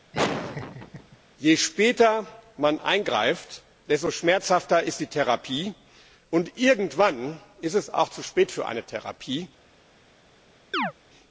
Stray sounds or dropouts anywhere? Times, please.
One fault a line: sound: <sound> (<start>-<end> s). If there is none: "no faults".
sound: laugh (0.1-1.2 s)
sound: chirp (10.7-10.9 s)